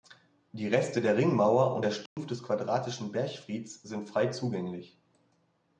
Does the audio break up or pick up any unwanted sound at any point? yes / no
yes